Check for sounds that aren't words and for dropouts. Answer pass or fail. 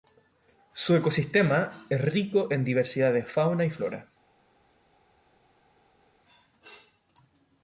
pass